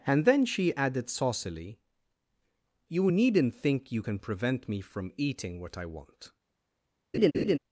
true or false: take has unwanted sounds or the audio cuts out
true